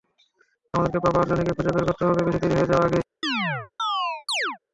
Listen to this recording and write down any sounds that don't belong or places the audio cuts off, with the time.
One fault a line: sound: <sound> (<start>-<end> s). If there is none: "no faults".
sound: chirp (3.2-4.6 s)